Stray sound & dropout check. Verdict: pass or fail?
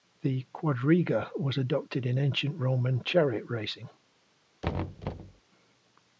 fail